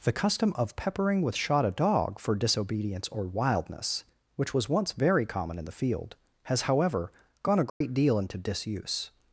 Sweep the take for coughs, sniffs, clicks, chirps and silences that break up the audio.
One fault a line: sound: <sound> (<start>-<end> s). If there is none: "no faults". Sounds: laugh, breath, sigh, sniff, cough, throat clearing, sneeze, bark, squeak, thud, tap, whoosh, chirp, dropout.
sound: dropout (7.7-7.8 s)